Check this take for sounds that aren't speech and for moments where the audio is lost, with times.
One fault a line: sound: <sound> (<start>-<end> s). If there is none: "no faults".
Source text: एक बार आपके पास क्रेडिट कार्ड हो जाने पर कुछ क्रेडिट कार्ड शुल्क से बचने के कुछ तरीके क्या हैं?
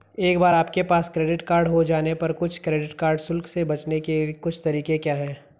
no faults